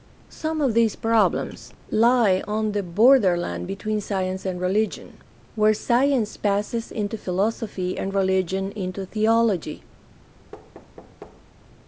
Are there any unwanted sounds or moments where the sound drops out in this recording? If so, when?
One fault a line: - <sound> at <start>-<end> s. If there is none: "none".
- thud at 10.5-11.4 s